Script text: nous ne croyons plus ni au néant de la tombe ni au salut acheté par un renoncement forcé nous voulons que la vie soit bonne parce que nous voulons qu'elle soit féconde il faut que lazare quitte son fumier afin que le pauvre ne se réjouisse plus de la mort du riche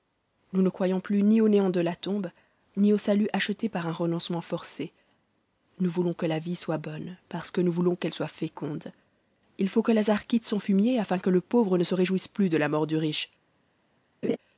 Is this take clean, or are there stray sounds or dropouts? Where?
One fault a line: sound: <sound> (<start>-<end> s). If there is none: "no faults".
sound: laugh (14.2-14.4 s)